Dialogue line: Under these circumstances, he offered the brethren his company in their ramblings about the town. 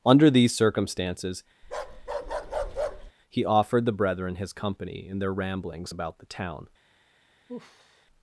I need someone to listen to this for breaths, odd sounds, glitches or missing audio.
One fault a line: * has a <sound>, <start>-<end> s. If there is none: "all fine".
* has a bark, 1.6-3.1 s
* has a sigh, 7.5-8.1 s